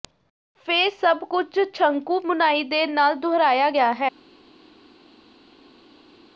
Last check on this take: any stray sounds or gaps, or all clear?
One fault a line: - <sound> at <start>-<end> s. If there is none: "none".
none